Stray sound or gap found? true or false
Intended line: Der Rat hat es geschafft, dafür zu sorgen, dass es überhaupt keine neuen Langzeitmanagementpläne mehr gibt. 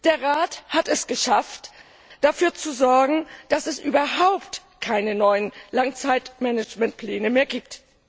false